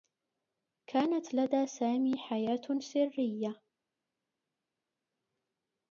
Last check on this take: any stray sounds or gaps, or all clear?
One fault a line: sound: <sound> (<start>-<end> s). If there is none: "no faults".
no faults